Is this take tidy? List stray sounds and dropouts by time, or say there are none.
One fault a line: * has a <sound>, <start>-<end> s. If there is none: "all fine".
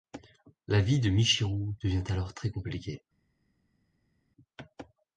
all fine